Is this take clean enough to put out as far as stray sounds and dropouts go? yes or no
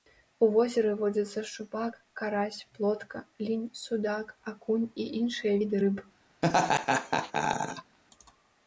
no